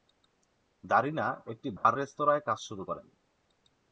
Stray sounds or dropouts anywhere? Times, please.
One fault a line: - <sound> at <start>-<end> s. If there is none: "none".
- dropout at 1.8-1.8 s